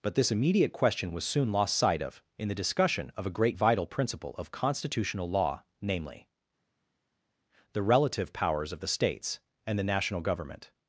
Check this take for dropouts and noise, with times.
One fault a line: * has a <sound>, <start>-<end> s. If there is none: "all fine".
all fine